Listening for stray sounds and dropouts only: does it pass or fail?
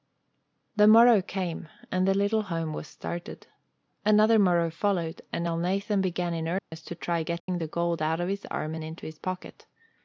fail